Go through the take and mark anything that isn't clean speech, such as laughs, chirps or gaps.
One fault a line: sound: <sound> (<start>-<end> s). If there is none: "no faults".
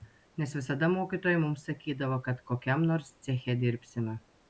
no faults